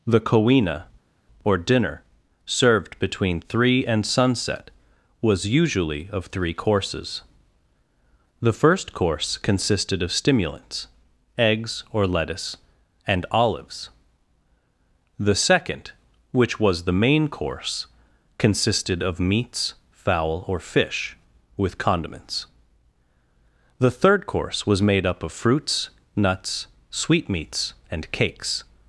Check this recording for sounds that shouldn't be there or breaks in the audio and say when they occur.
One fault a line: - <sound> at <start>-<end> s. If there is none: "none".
none